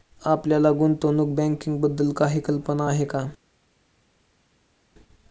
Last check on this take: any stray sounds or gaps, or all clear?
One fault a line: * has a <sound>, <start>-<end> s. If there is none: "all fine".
all fine